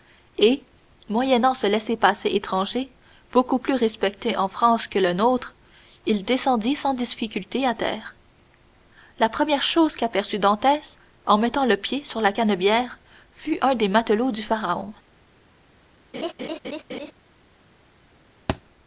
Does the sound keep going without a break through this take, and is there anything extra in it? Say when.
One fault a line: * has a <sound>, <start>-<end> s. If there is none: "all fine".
* has a laugh, 16.1-17.1 s
* has a thud, 18.5-18.6 s